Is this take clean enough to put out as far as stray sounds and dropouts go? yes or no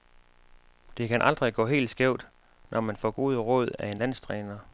yes